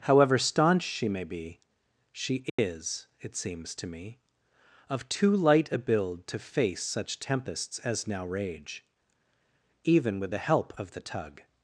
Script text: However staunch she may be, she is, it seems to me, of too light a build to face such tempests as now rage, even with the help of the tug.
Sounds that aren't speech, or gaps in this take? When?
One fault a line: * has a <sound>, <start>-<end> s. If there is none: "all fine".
* has a dropout, 2.5-2.6 s